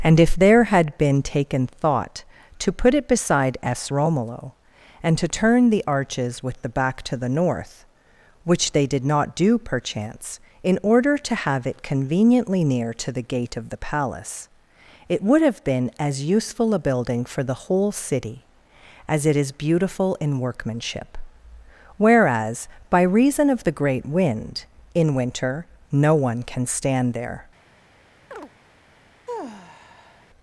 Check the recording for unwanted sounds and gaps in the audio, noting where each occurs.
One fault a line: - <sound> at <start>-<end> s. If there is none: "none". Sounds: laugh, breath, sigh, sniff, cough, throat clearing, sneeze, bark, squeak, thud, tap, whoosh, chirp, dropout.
- chirp at 28.3-28.5 s
- sigh at 29.3-30.3 s